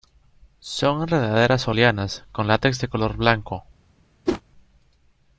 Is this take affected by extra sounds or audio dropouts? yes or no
yes